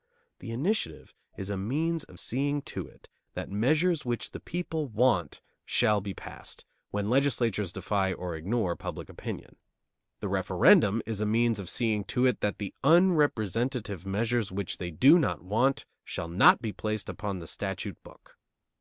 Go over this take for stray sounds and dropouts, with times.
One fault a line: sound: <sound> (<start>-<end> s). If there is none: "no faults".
no faults